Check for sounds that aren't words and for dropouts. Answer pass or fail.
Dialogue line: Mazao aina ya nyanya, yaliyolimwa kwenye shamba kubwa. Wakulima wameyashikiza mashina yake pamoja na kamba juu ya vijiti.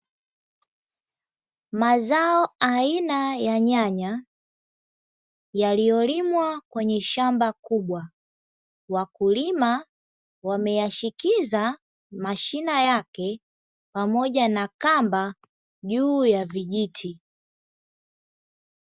pass